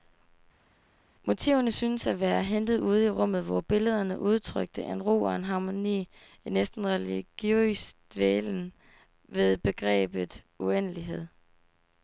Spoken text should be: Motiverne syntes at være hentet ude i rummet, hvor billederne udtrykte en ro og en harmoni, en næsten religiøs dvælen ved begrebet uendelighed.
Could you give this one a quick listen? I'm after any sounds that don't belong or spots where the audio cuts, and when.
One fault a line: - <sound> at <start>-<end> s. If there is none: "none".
none